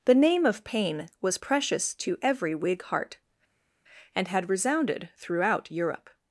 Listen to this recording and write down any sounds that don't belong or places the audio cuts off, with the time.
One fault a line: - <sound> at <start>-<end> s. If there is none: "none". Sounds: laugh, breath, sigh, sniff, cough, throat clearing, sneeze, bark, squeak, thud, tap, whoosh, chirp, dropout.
none